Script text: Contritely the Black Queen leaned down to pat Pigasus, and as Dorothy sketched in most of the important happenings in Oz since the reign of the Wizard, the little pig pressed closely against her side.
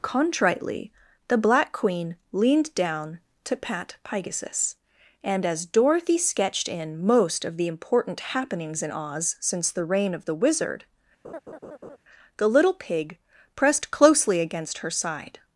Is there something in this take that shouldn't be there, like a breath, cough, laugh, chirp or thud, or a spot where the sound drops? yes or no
yes